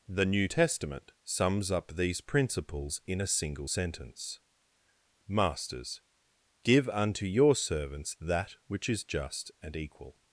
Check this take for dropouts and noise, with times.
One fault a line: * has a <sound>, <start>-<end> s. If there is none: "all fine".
all fine